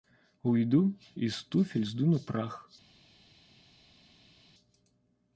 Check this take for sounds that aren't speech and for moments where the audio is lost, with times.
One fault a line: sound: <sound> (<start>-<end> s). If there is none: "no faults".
no faults